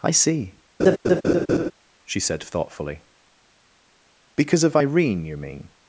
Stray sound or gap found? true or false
true